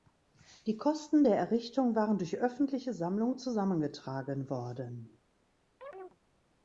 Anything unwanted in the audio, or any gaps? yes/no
yes